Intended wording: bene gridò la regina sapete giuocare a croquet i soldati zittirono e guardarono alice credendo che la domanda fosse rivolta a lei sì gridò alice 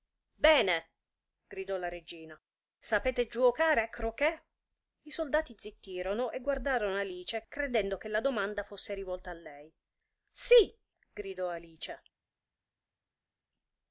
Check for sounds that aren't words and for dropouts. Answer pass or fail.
pass